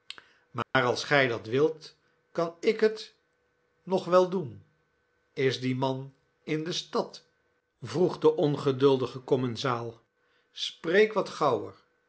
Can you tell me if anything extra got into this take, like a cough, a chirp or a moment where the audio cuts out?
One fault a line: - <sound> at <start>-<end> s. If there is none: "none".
- dropout at 0.6-0.7 s